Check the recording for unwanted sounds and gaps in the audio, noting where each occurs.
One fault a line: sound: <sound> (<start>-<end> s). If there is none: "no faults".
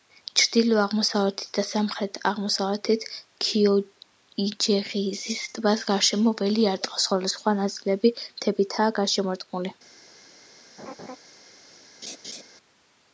sound: laugh (10.8-11.2 s)
sound: laugh (12.0-12.4 s)